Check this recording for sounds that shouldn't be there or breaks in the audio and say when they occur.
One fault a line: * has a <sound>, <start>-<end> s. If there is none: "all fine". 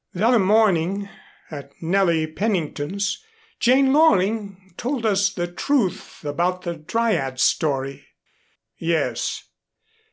all fine